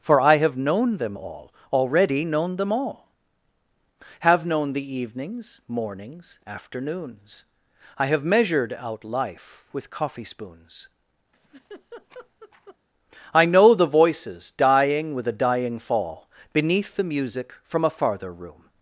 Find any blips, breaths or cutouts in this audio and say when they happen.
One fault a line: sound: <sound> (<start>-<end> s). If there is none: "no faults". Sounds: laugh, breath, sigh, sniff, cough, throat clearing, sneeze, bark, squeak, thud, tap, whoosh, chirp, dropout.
sound: laugh (11.3-12.8 s)